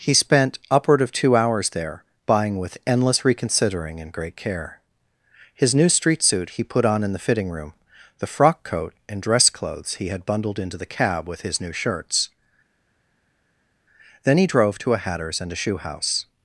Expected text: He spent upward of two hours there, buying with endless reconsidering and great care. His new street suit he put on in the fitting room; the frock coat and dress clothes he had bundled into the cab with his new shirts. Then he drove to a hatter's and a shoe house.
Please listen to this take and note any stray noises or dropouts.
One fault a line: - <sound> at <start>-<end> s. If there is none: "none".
none